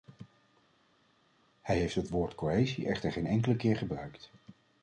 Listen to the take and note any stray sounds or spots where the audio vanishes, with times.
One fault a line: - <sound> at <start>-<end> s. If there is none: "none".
none